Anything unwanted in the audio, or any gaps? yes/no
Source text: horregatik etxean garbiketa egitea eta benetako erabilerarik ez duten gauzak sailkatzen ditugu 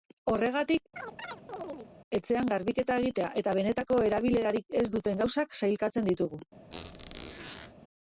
yes